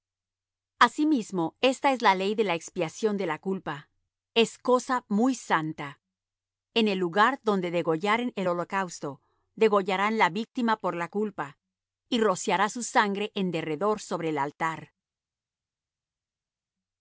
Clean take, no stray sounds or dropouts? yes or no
yes